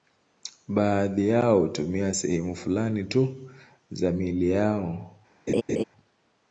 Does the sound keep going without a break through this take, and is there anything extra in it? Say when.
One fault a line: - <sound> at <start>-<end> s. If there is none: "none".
- laugh at 5.5-5.8 s